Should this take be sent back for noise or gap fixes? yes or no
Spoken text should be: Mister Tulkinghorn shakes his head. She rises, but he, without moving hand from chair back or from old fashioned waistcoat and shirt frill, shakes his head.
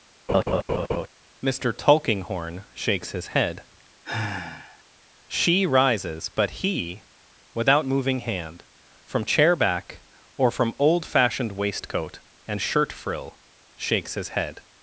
yes